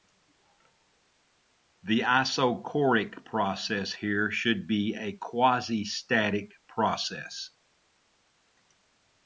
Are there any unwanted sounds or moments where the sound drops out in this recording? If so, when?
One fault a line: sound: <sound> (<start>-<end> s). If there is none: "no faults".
no faults